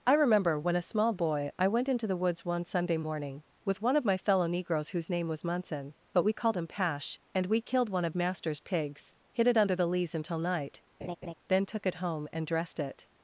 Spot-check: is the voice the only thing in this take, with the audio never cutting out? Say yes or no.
no